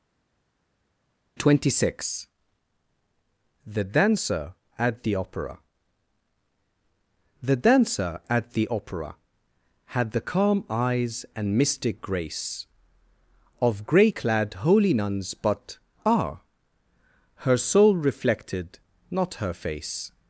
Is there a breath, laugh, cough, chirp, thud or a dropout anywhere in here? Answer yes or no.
no